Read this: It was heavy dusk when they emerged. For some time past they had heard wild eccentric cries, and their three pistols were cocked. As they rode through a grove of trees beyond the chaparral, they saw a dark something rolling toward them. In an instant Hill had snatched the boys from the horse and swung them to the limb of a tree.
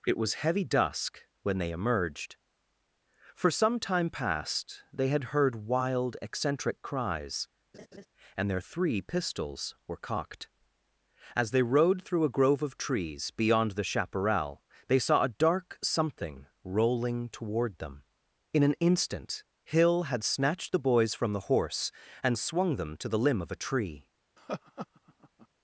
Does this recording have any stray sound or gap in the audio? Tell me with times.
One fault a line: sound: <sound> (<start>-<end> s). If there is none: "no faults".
sound: laugh (7.7-8.1 s)
sound: laugh (24.4-25.5 s)